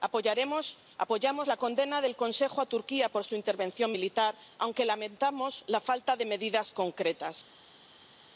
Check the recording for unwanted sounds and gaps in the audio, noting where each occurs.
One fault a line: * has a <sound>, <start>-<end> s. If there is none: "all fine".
all fine